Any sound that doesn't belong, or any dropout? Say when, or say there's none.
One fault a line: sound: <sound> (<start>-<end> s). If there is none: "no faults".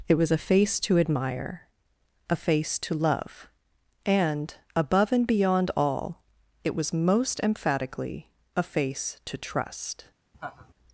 sound: laugh (10.3-10.7 s)